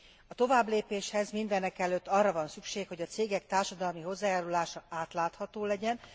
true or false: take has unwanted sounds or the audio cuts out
false